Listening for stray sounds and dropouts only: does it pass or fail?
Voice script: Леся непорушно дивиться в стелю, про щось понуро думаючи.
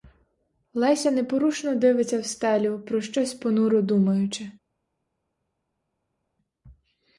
pass